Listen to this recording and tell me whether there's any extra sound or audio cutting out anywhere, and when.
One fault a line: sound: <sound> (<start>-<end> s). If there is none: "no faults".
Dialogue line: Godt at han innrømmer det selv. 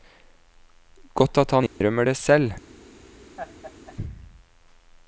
sound: dropout (1.7-1.8 s)
sound: laugh (3.4-4.0 s)